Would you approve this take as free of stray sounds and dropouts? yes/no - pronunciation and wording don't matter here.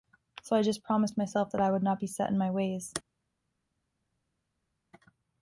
yes